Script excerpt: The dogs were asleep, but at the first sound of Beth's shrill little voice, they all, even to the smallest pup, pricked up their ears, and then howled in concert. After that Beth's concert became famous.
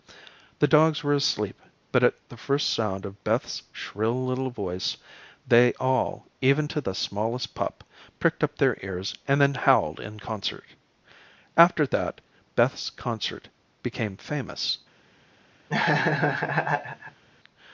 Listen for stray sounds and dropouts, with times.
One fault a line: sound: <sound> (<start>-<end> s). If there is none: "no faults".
sound: laugh (15.7-17.2 s)